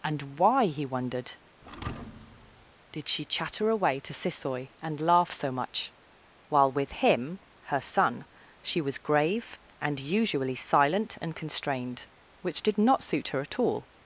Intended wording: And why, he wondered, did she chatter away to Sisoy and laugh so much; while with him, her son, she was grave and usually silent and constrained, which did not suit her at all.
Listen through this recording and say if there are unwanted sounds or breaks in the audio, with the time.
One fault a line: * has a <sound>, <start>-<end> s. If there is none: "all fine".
* has a thud, 1.6-2.7 s